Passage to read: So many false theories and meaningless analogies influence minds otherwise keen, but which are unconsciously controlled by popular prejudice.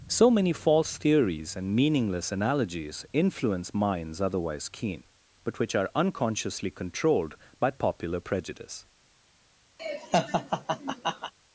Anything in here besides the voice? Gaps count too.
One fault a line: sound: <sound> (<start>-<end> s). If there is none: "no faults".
sound: laugh (9.8-11.3 s)